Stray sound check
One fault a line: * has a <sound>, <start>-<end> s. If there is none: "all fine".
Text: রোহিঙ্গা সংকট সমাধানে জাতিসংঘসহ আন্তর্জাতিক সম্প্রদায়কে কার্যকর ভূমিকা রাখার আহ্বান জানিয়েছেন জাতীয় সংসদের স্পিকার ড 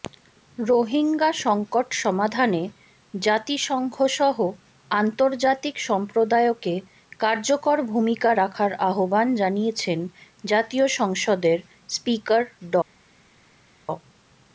all fine